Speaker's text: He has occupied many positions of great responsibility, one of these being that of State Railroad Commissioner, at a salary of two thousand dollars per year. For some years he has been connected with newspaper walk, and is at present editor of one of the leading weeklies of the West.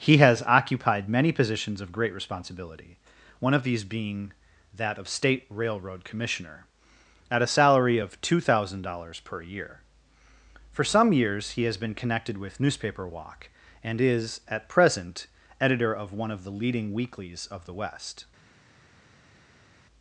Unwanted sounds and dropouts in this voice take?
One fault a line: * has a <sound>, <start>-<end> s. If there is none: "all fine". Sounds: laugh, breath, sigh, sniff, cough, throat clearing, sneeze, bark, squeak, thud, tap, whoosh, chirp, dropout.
all fine